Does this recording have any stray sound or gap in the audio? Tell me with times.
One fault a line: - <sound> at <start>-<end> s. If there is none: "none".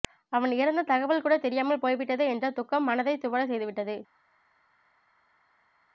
none